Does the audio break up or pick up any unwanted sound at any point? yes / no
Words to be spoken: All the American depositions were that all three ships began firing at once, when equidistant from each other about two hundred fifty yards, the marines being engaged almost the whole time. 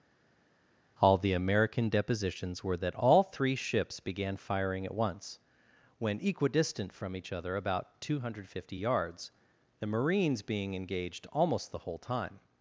no